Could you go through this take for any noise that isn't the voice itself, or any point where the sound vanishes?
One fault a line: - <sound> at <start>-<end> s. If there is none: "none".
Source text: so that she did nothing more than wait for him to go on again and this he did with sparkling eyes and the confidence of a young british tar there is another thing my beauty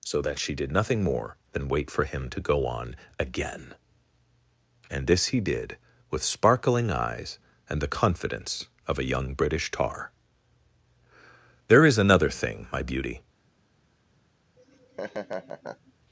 - laugh at 14.6-15.9 s